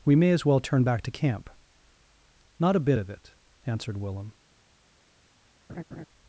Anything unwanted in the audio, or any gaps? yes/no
yes